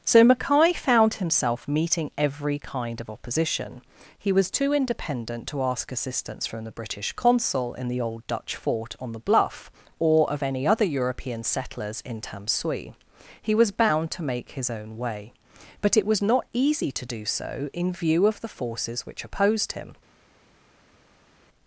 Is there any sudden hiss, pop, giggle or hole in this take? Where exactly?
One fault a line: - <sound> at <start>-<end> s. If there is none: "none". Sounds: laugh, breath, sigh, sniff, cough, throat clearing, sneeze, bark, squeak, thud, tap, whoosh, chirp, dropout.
none